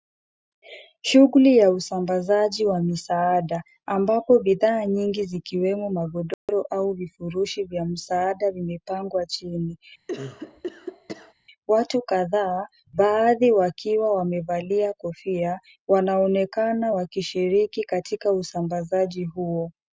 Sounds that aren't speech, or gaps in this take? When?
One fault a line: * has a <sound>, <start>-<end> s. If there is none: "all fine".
* has a dropout, 6.3-6.5 s
* has a cough, 10.1-11.3 s